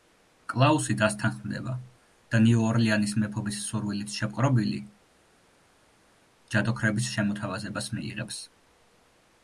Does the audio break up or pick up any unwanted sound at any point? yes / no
no